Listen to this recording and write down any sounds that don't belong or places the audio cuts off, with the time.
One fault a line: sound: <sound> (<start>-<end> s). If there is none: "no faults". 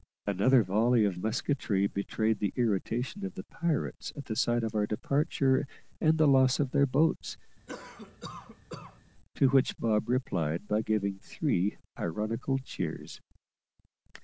sound: cough (7.7-9.0 s)